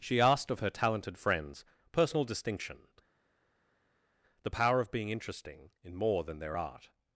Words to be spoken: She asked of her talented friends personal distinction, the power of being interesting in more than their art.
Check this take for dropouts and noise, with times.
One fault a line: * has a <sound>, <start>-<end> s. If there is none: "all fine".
all fine